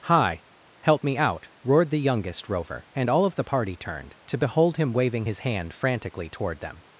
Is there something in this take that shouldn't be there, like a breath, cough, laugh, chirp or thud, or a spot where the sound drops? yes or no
no